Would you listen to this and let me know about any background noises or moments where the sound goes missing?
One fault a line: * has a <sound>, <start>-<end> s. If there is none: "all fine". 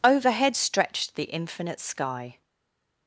all fine